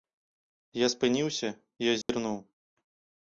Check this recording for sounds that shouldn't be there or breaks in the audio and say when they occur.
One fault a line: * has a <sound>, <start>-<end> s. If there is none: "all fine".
* has a dropout, 2.0-2.1 s